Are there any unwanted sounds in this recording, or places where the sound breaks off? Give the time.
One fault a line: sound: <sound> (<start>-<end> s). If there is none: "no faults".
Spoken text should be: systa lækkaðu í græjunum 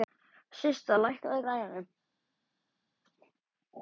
no faults